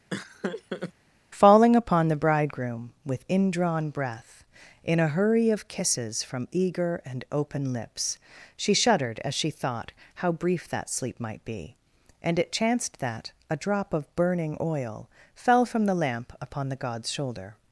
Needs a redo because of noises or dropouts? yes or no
yes